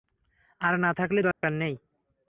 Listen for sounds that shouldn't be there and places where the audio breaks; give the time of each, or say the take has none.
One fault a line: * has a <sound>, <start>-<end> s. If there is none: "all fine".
* has a dropout, 1.3-1.4 s